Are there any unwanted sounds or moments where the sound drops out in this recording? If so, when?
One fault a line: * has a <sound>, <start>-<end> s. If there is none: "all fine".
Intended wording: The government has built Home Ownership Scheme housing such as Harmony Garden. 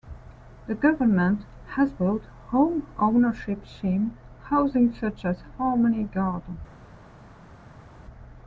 all fine